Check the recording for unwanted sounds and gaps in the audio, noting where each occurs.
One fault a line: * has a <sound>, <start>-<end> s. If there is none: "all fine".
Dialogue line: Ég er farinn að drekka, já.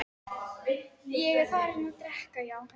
all fine